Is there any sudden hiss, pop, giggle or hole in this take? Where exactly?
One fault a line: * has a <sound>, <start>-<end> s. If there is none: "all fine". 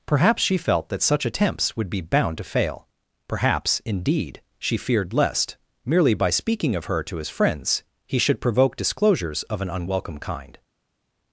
all fine